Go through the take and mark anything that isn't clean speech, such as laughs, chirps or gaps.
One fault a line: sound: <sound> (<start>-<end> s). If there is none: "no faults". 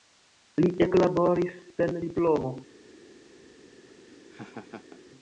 sound: laugh (3.9-5.0 s)